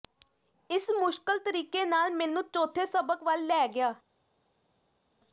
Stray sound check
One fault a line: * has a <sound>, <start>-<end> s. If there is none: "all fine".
all fine